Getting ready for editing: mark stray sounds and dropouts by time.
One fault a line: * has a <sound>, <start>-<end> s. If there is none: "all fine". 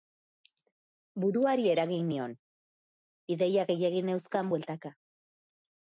all fine